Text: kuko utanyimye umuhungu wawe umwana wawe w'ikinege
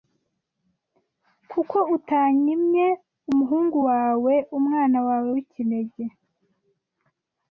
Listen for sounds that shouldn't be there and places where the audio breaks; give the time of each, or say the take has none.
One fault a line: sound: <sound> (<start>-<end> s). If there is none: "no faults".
no faults